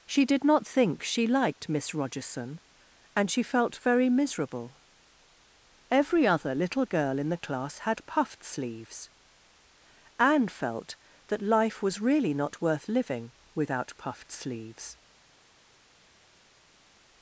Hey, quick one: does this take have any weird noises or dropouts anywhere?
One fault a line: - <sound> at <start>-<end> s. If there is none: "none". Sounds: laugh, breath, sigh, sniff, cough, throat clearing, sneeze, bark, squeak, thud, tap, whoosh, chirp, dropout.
none